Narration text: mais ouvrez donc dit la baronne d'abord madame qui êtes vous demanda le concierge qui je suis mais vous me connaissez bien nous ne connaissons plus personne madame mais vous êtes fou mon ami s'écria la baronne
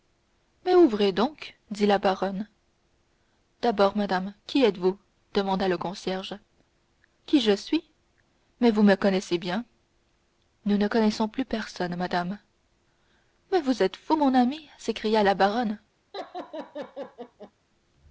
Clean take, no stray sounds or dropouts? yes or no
no